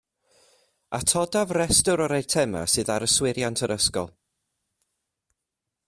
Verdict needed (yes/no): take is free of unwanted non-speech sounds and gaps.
yes